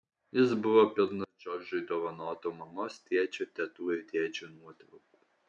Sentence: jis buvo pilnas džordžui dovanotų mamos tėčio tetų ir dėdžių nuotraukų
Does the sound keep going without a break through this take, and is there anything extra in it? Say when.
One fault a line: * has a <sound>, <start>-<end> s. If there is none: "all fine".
all fine